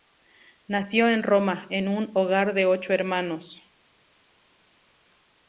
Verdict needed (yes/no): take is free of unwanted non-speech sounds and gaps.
yes